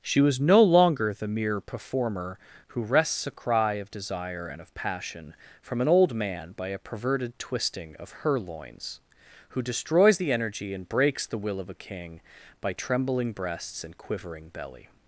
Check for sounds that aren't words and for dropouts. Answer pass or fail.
pass